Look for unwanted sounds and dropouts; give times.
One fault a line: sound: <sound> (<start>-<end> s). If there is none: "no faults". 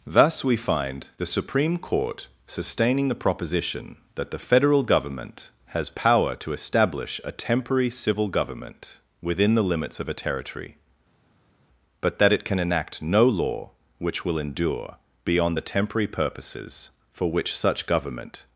no faults